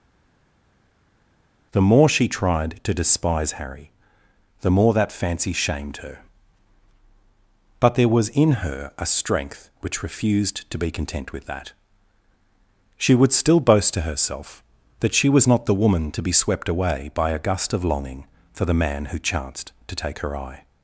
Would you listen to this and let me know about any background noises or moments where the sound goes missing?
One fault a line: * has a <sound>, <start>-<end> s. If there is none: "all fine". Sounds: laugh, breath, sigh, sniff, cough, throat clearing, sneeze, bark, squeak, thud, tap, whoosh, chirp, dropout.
all fine